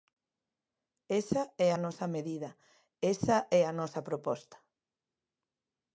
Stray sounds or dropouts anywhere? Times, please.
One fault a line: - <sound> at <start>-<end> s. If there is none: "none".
none